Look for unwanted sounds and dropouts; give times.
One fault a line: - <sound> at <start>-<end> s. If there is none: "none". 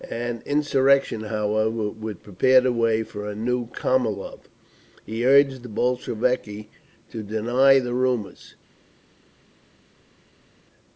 none